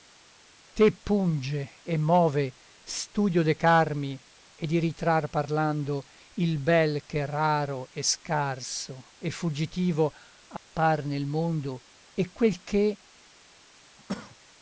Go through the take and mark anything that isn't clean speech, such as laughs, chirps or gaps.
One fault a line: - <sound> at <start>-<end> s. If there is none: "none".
- dropout at 10.6-10.7 s
- cough at 14.0-14.4 s